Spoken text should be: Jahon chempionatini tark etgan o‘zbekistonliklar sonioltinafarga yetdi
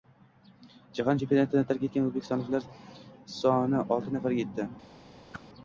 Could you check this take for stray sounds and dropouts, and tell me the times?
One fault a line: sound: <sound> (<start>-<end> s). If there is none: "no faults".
sound: whoosh (5.3-5.4 s)